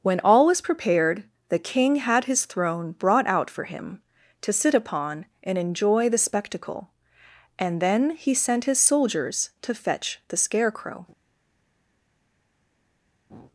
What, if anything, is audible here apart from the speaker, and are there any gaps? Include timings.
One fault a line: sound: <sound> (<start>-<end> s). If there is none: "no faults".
no faults